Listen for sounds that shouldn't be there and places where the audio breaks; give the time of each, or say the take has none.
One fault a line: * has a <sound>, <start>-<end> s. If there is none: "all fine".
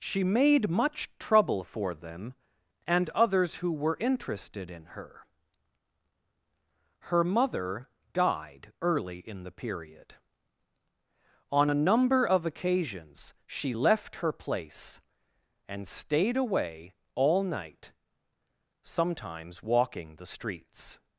all fine